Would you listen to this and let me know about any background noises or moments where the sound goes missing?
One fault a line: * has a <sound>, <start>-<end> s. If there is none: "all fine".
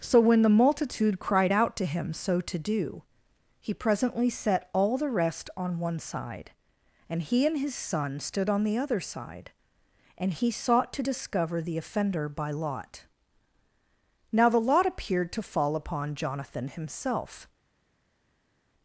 all fine